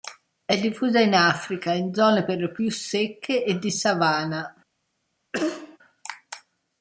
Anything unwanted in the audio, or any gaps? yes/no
yes